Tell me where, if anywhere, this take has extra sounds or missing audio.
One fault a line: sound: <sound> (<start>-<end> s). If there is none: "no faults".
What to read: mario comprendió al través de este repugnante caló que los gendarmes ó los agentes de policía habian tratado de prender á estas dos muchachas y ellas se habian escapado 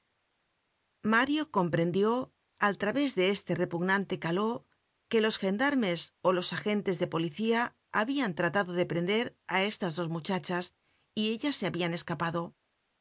no faults